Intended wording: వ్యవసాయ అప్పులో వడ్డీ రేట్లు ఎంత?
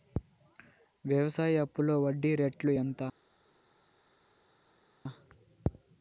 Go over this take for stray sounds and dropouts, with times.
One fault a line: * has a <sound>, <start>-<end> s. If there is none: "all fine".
all fine